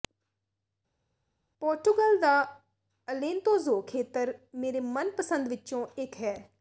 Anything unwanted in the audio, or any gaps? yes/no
no